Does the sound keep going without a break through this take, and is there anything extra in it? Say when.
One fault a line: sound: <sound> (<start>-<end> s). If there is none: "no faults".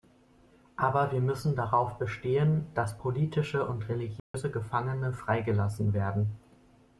sound: dropout (4.2-4.3 s)